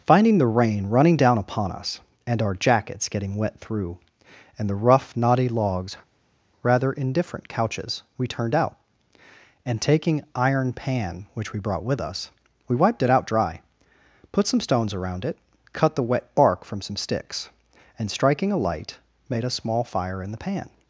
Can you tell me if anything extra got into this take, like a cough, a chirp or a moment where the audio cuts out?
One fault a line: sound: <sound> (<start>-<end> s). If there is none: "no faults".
no faults